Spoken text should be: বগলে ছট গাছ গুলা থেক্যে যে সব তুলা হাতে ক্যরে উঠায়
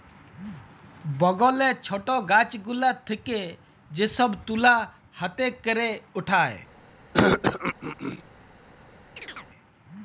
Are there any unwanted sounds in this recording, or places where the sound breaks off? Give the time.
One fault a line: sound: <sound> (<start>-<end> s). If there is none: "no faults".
sound: throat clearing (7.1-8.2 s)
sound: chirp (9.2-9.5 s)